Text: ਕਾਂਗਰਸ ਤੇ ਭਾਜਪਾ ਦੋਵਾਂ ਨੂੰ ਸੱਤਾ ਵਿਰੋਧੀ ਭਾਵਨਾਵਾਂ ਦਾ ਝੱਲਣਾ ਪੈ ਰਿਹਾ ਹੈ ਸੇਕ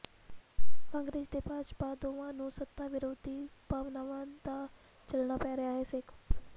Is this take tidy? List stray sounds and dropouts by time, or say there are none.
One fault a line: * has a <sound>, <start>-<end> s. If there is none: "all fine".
all fine